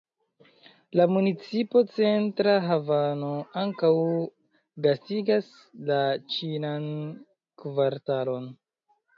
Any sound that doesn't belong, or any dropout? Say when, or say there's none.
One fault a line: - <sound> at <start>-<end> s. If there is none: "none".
none